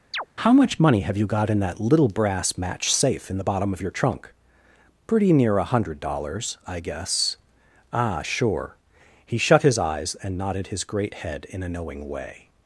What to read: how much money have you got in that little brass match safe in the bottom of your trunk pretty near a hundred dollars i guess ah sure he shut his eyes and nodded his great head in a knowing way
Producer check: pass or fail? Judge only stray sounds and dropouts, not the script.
fail